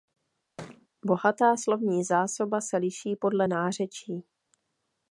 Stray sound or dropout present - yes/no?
yes